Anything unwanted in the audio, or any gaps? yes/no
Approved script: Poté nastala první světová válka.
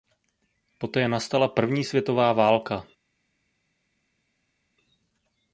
no